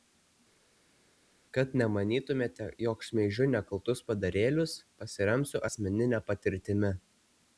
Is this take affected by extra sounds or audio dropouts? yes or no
no